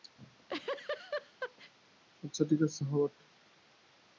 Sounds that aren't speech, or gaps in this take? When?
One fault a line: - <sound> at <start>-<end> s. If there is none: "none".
- laugh at 0.2-1.7 s